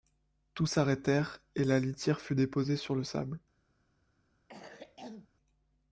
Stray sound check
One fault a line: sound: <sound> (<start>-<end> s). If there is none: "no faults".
sound: cough (4.5-5.3 s)